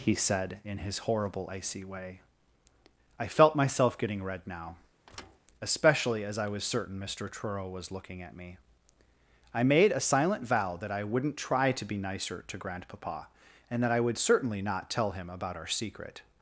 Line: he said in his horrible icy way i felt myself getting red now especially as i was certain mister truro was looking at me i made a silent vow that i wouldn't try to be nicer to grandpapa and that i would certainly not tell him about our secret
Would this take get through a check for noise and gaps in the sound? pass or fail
fail